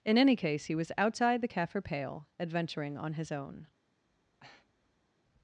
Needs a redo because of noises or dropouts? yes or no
yes